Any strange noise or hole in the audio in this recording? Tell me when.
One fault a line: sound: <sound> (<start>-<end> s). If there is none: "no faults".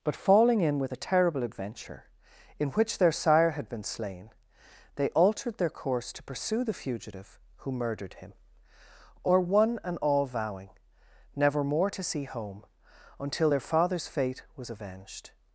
no faults